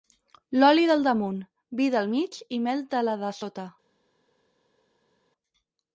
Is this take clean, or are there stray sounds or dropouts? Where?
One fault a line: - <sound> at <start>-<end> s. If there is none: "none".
none